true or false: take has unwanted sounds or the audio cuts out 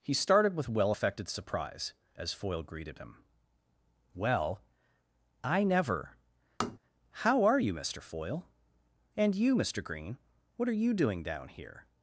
true